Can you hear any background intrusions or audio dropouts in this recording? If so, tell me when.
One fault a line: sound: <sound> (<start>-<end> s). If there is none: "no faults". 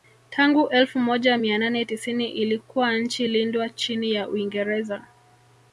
no faults